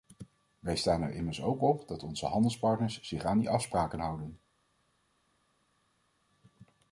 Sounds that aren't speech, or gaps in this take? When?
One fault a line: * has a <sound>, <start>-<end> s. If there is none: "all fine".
all fine